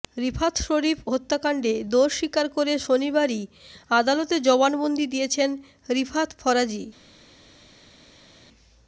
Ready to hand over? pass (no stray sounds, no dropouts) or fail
pass